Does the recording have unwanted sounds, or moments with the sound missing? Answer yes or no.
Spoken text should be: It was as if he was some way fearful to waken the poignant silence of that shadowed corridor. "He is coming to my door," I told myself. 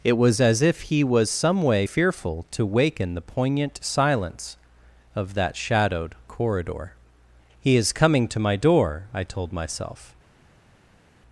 no